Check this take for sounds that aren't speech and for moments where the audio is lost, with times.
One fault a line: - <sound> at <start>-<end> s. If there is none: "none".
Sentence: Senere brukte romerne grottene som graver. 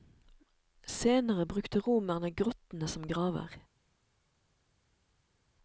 none